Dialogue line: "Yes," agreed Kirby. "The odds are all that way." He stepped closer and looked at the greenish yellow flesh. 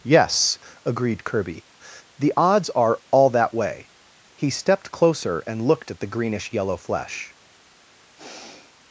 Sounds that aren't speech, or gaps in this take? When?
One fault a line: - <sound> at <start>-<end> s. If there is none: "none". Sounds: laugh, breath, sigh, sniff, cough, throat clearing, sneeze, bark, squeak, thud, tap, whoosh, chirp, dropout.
- sigh at 8.2-8.8 s